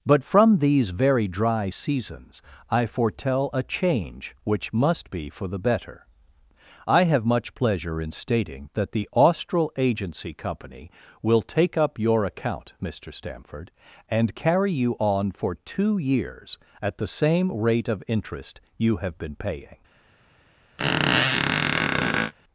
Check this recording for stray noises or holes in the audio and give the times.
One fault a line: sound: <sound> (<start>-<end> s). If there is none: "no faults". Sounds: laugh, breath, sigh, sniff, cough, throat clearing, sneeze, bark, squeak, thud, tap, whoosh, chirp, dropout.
sound: squeak (20.8-22.3 s)